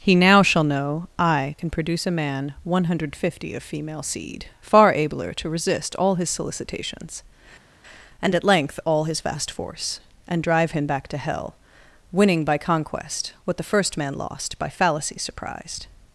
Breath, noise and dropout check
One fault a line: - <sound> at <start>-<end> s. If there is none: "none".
none